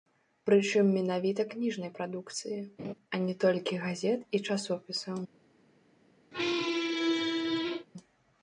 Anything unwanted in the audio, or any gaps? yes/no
yes